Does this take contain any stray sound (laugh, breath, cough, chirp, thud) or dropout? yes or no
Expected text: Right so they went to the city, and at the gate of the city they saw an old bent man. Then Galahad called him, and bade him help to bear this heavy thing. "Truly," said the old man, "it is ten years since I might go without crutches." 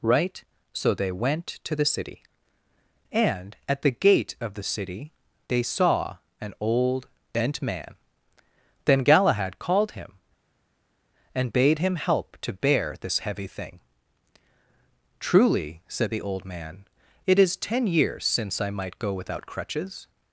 no